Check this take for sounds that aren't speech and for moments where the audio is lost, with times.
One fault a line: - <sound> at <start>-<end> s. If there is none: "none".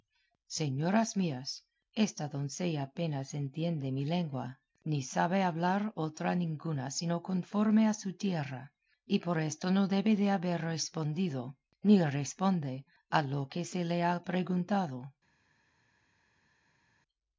none